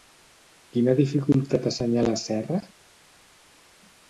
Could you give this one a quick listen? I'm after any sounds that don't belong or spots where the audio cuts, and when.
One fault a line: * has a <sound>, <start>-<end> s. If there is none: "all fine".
all fine